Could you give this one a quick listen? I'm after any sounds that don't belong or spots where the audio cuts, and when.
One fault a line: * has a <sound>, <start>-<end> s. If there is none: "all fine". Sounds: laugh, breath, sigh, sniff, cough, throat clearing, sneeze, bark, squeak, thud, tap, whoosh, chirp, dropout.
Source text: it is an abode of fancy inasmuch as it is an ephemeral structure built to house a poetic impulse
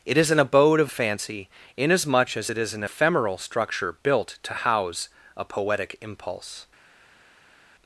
all fine